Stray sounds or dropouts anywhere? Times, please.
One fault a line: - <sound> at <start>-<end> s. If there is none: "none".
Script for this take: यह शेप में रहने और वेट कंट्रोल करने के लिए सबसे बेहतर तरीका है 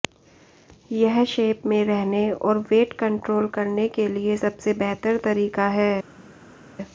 none